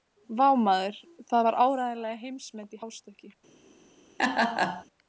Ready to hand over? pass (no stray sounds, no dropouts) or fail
fail